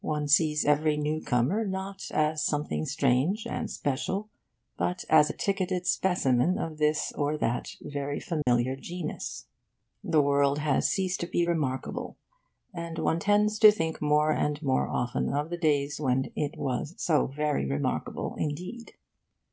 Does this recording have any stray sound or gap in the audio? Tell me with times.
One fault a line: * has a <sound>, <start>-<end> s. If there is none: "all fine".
* has a dropout, 8.4-8.5 s